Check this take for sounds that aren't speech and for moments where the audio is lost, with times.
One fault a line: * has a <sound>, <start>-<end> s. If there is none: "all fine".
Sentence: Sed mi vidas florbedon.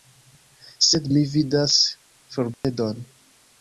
* has a dropout, 2.5-2.6 s